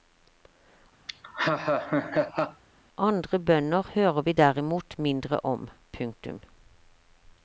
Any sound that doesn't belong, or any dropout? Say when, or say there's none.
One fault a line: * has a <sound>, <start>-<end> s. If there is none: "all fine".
* has a laugh, 1.1-2.6 s